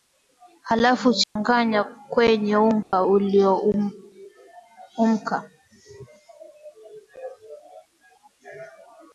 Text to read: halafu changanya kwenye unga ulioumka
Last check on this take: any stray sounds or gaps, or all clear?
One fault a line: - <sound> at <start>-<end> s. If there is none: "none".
- dropout at 1.2-1.4 s
- dropout at 2.8-2.9 s